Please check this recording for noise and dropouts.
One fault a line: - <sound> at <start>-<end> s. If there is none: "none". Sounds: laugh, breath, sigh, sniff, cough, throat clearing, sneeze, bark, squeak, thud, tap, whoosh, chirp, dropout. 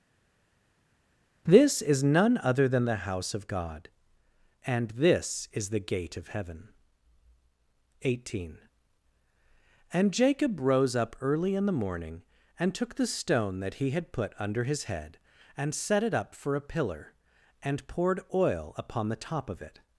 none